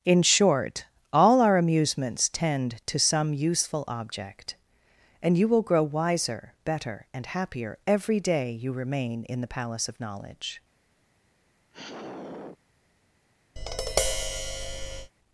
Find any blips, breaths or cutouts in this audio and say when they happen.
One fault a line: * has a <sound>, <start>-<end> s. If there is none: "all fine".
* has a sigh, 11.7-12.6 s
* has a tap, 13.6-15.1 s